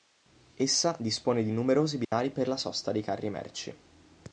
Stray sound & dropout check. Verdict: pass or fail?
fail